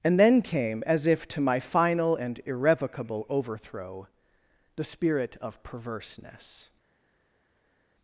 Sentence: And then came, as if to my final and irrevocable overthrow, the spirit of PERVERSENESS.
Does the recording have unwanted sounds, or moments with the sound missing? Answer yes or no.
no